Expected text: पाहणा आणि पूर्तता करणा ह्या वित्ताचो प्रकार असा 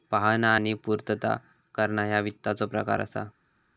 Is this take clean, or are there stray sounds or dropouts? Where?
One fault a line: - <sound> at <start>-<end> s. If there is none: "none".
none